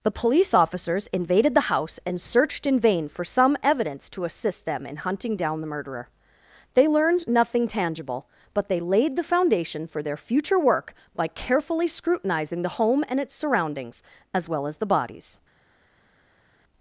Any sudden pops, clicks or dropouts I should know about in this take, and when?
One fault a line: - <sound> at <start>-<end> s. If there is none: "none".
none